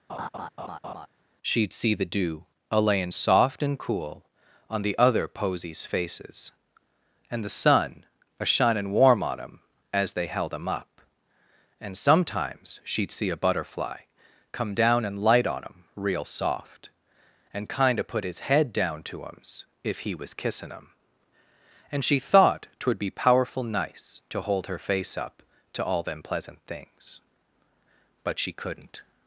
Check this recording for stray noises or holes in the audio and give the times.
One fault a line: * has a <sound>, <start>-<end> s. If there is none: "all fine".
* has a laugh, 0.1-1.1 s